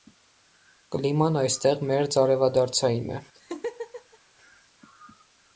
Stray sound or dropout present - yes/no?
yes